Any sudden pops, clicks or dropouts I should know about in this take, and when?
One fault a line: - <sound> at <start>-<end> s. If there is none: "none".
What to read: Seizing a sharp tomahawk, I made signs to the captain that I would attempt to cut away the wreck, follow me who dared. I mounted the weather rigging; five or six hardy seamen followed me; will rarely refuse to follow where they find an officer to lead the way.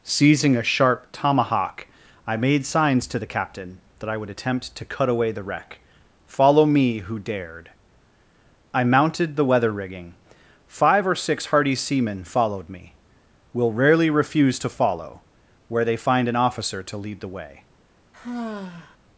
- sigh at 18.1-19.0 s